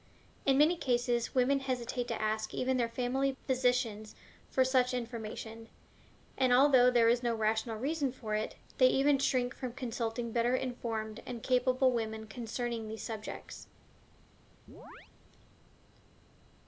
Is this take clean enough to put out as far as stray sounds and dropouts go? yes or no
no